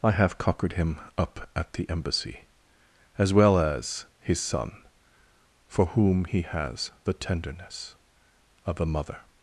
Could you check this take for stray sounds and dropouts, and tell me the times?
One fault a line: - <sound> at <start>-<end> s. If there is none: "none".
none